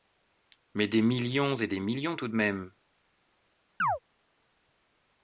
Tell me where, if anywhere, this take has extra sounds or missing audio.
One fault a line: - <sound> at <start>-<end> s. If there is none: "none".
- chirp at 3.8-4.0 s